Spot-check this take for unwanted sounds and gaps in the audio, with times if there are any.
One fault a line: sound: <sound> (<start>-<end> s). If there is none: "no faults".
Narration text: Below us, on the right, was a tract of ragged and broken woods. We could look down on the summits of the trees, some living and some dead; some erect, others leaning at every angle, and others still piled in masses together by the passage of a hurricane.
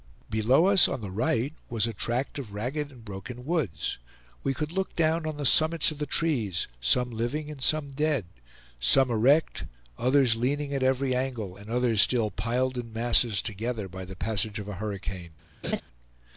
sound: laugh (15.6-15.8 s)